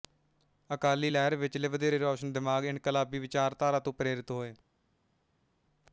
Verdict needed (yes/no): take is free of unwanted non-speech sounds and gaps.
yes